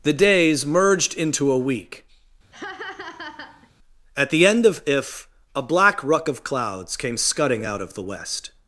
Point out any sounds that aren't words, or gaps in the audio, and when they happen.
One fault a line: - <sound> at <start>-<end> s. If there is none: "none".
- laugh at 2.5-3.7 s